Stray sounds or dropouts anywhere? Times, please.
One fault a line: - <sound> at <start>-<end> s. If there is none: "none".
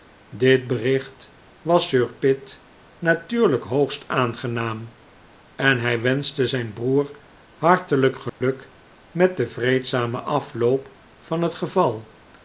- dropout at 8.3-8.4 s